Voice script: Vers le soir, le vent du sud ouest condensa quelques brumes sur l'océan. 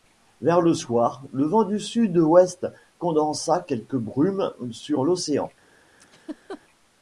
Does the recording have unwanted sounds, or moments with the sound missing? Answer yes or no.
yes